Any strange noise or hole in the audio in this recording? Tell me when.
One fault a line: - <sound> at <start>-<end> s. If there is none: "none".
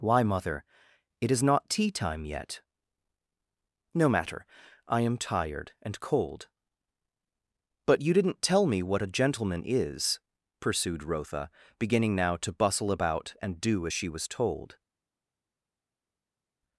none